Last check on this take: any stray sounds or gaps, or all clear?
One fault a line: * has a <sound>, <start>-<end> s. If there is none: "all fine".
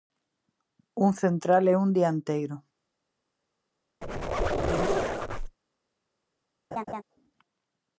* has a squeak, 4.0-5.6 s
* has a laugh, 6.7-7.0 s